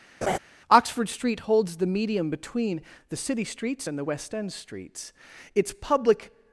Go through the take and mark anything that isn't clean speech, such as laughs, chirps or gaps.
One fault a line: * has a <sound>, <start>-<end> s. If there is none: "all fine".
* has a laugh, 0.2-0.4 s